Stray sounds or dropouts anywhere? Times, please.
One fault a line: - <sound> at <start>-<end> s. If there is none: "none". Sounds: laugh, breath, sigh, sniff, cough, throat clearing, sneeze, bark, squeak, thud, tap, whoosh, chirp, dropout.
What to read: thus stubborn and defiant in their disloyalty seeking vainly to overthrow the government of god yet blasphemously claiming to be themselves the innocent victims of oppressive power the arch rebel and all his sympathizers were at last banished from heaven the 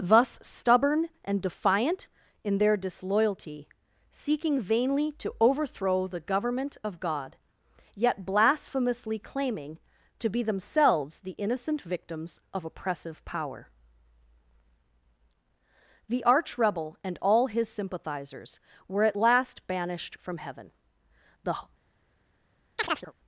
- chirp at 22.8-23.1 s